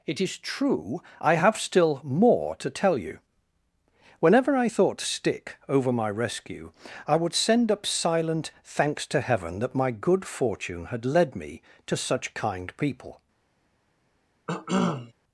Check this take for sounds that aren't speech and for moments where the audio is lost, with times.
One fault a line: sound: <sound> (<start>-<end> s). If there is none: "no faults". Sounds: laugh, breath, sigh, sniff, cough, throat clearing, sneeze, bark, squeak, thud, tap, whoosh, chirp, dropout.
sound: cough (14.5-15.1 s)